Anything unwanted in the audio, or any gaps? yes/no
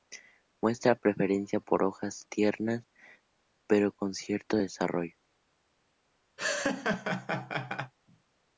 yes